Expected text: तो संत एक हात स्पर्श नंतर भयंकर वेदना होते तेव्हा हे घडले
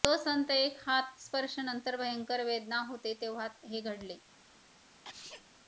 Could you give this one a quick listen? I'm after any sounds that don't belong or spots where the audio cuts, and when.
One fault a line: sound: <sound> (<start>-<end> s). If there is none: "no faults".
sound: sneeze (5.0-5.5 s)